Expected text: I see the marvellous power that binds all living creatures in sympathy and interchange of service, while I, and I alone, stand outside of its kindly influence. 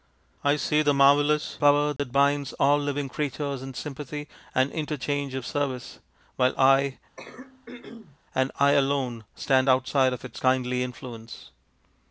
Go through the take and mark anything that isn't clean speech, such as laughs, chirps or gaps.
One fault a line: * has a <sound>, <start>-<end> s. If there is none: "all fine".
* has a dropout, 2.0-2.0 s
* has a throat clearing, 7.2-8.2 s